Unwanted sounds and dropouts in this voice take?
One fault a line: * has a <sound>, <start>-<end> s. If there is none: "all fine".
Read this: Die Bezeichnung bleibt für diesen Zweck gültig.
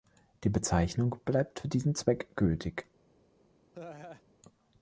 * has a laugh, 3.7-4.2 s